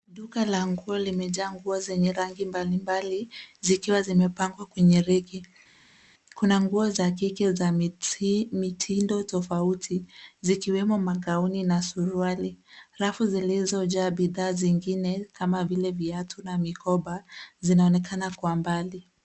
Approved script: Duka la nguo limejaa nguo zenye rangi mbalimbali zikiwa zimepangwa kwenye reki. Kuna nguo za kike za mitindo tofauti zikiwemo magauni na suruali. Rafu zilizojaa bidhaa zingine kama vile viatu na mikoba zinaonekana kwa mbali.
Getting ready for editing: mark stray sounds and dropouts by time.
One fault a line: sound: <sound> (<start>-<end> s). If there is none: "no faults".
no faults